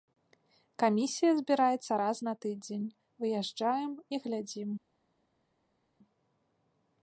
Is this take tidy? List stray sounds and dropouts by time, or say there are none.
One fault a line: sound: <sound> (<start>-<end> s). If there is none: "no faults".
no faults